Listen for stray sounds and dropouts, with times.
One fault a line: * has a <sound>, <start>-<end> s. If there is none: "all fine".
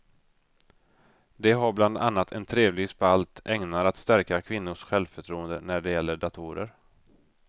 all fine